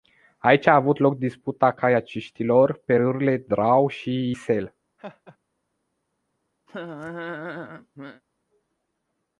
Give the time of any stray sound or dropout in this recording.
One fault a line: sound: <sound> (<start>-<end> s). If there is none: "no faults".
sound: laugh (5.0-5.4 s)
sound: laugh (6.7-8.2 s)